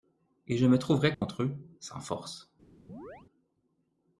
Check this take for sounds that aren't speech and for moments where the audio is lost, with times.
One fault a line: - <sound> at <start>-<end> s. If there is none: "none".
- dropout at 1.1-1.2 s
- chirp at 2.9-3.3 s